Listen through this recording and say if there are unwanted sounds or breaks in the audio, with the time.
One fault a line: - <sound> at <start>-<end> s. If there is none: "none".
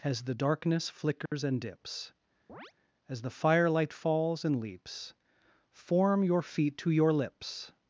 - dropout at 1.3-1.3 s
- chirp at 2.5-2.7 s